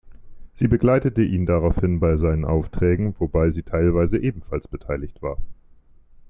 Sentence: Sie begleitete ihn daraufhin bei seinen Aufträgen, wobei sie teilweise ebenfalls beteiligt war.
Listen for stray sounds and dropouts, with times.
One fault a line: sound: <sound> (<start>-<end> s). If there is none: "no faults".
no faults